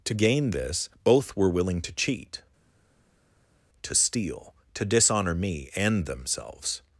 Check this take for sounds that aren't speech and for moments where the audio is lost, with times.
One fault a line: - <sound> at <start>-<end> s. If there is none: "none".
none